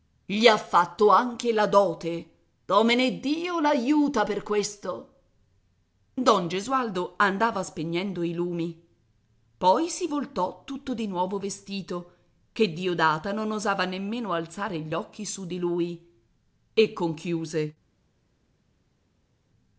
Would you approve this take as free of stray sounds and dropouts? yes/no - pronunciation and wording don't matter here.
yes